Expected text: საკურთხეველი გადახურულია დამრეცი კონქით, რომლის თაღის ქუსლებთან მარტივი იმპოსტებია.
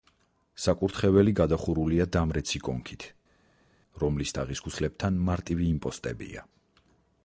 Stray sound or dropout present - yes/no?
no